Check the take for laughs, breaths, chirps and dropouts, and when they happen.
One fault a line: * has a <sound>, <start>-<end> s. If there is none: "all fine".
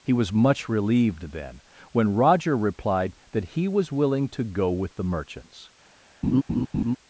* has a laugh, 6.2-7.0 s